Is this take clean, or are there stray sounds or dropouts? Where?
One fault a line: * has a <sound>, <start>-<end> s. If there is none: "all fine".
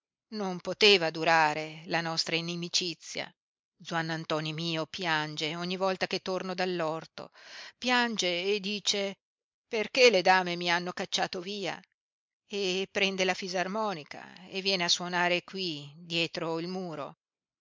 all fine